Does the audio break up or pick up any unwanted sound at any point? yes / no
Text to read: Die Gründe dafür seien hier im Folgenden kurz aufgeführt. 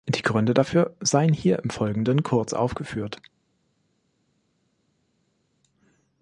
no